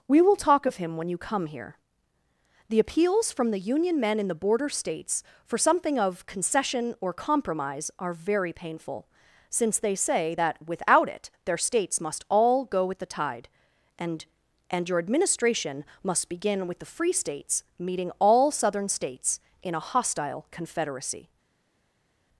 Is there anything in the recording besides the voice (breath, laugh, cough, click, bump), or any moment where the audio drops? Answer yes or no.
no